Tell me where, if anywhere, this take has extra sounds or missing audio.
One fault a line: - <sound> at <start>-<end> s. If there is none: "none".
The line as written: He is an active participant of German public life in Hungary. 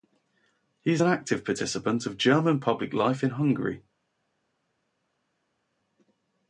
none